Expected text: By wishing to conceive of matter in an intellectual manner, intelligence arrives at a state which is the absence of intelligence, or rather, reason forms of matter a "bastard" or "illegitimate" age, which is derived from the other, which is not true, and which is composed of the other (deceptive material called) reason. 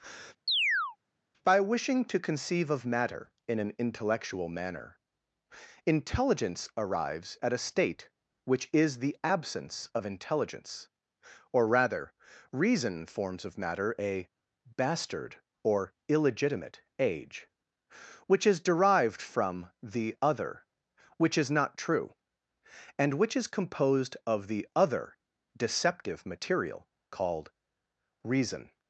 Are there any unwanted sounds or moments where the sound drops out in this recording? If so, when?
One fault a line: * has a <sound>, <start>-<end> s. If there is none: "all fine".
* has a chirp, 0.5-1.0 s